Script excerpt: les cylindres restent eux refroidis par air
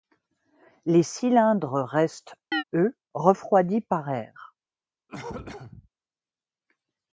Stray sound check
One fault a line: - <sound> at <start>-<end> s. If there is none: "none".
- chirp at 2.5-2.6 s
- cough at 5.1-5.9 s